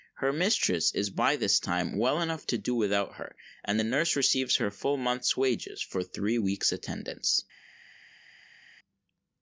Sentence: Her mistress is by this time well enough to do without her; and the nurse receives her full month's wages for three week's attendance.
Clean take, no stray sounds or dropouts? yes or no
yes